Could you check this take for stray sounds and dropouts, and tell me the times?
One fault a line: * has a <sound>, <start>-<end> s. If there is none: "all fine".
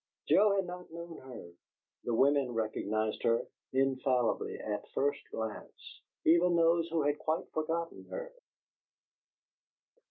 all fine